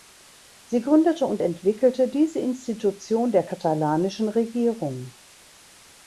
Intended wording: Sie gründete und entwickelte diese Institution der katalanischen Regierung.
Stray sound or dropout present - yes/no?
no